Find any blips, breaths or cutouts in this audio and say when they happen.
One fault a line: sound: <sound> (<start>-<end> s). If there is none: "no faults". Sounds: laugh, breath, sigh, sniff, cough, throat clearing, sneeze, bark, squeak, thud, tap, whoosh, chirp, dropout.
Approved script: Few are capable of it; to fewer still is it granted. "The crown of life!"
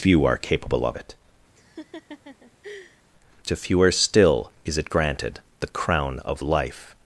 sound: laugh (1.6-3.0 s)